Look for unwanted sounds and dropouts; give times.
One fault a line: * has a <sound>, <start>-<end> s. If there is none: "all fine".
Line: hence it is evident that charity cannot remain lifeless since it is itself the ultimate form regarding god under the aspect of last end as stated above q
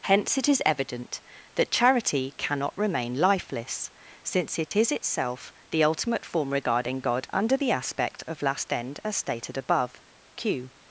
* has a dropout, 4.7-4.7 s